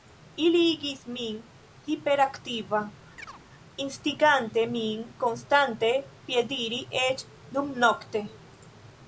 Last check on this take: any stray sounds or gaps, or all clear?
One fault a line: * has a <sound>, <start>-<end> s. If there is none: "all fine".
* has a chirp, 3.2-3.4 s